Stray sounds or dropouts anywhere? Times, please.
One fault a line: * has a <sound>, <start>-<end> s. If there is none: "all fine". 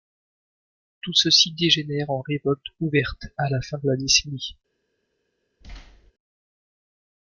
* has a thud, 5.6-6.1 s